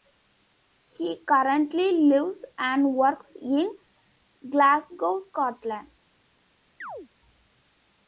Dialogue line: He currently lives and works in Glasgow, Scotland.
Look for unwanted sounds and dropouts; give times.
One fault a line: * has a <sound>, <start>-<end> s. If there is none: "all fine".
* has a chirp, 6.8-7.1 s